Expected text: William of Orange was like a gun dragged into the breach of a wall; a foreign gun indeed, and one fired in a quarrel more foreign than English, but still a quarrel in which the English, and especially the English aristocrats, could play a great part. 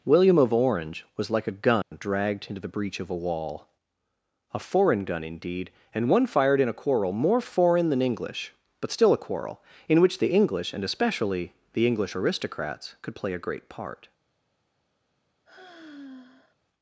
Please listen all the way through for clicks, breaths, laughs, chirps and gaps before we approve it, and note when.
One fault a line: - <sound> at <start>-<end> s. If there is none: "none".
- dropout at 1.8-1.9 s
- sigh at 15.5-16.6 s